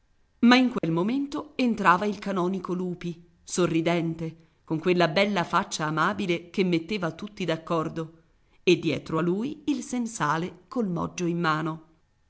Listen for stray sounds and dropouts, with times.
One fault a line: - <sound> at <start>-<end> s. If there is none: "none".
- dropout at 0.8-0.8 s